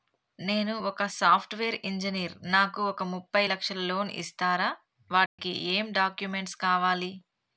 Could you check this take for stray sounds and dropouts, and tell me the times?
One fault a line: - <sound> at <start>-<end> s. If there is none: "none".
- dropout at 5.3-5.4 s